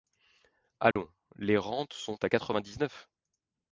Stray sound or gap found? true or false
true